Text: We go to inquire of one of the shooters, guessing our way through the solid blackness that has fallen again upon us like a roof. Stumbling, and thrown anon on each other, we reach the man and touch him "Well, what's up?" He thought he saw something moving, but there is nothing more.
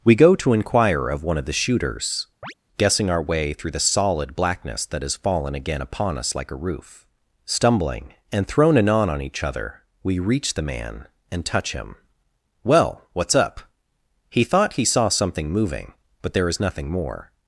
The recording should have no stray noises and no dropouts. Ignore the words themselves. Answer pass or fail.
fail